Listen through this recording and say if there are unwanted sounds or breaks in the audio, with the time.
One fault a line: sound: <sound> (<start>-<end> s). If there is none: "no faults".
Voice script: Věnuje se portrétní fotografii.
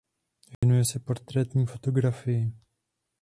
sound: dropout (0.5-0.6 s)